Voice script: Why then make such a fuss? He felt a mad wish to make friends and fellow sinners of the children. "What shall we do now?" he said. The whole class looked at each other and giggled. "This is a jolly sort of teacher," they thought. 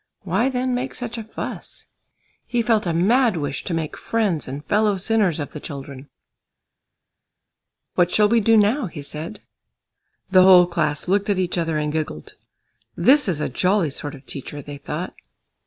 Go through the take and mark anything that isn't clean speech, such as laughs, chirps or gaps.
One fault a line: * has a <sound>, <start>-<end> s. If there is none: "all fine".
all fine